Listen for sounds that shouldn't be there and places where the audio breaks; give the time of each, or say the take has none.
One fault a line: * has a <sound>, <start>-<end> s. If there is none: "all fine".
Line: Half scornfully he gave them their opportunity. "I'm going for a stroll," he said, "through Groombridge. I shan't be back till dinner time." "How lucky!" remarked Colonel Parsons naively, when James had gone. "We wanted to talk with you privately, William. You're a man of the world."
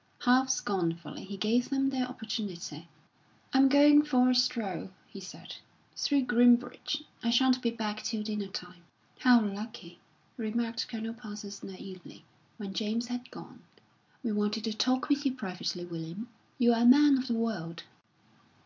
all fine